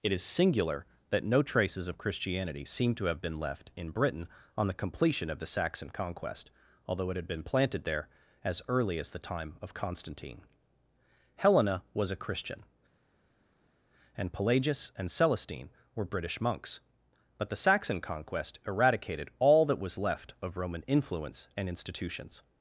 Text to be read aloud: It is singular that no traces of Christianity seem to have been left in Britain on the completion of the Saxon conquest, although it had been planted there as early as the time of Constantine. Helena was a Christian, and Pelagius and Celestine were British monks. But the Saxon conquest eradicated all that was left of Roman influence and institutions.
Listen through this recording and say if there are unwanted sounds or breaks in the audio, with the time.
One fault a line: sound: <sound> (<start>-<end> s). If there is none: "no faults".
no faults